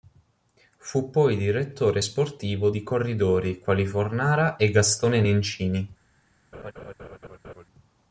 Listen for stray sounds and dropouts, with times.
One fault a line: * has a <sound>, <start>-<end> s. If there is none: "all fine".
* has a laugh, 6.5-7.7 s